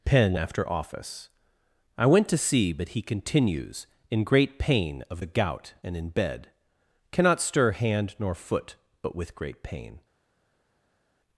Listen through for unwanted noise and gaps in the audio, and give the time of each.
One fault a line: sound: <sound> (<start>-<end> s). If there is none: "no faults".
no faults